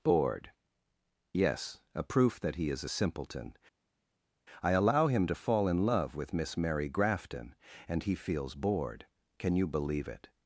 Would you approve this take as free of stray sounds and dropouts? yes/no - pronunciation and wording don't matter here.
yes